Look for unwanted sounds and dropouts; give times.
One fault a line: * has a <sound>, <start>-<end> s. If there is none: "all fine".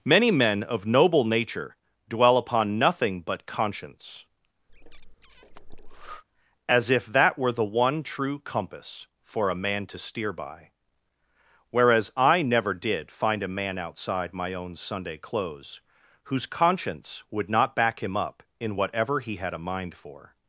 * has a breath, 4.7-6.2 s